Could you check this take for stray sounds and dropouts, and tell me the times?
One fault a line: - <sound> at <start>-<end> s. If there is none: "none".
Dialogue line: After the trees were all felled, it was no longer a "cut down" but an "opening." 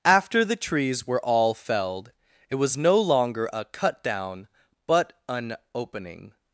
none